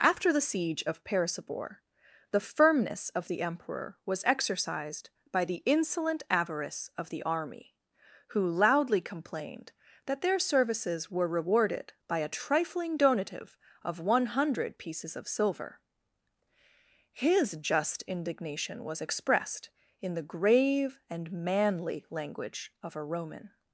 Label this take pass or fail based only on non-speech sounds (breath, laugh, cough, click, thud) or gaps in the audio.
pass